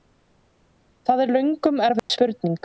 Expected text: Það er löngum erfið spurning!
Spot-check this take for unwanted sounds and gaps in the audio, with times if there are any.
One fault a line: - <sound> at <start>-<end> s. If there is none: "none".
- dropout at 2.0-2.1 s